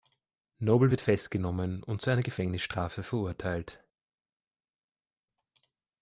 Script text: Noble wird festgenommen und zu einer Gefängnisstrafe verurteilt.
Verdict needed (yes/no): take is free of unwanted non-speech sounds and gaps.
yes